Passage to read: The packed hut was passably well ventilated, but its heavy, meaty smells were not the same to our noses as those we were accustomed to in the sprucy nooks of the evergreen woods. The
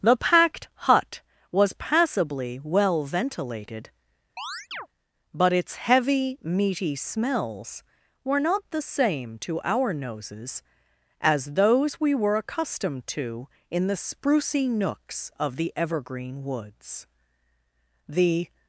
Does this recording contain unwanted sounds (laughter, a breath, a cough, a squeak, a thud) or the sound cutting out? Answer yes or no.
yes